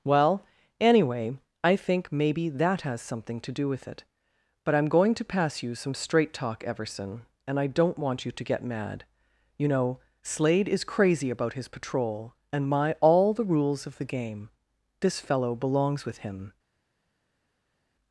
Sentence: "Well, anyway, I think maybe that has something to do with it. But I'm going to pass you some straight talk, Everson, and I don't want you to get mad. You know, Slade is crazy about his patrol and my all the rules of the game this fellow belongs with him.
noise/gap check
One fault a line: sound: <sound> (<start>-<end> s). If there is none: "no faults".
no faults